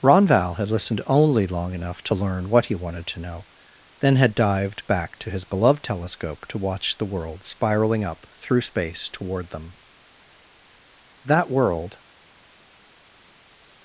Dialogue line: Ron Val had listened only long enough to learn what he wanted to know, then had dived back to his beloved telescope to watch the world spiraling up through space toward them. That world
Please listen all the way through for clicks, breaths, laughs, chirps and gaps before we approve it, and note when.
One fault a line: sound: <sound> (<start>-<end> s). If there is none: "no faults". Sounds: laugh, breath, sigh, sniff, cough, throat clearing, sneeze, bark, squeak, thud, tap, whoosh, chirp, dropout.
no faults